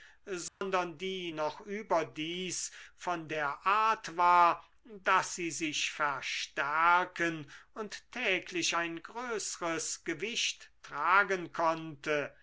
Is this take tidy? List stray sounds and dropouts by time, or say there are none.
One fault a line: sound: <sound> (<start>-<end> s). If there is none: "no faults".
sound: dropout (0.5-0.6 s)